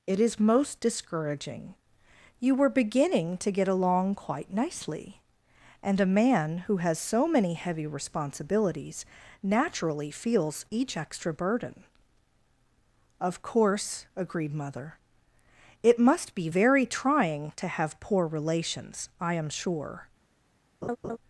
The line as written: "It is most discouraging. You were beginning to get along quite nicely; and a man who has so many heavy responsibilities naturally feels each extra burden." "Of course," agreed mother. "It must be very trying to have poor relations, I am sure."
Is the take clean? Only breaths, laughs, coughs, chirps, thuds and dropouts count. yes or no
no